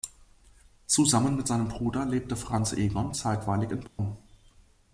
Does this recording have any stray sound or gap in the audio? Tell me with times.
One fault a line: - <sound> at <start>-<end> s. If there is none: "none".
- dropout at 3.9-4.0 s